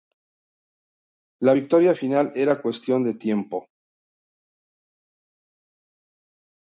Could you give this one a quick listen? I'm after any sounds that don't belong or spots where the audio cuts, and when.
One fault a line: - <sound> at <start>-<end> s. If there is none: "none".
none